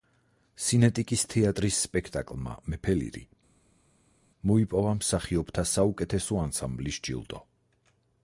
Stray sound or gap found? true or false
false